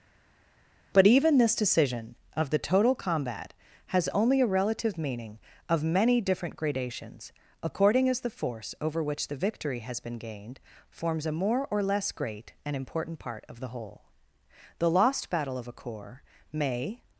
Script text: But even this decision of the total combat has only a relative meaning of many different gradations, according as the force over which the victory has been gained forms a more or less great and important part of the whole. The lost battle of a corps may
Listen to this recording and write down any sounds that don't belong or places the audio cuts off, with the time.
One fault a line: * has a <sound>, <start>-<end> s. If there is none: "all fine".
all fine